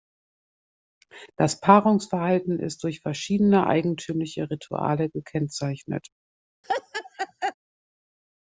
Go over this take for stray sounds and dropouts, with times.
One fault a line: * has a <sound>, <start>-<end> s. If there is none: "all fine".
* has a laugh, 6.6-7.5 s